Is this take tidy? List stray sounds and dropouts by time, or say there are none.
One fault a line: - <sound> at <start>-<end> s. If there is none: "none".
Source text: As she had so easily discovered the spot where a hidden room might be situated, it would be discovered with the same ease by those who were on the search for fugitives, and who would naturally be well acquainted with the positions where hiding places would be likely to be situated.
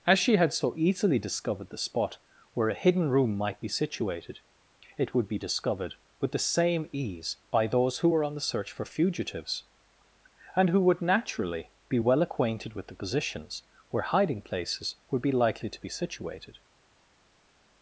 none